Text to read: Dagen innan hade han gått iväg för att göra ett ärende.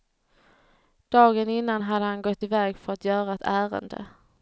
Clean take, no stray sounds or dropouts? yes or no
yes